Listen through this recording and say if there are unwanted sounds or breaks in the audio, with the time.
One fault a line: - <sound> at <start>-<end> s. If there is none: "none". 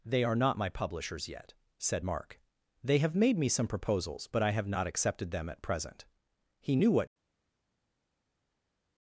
none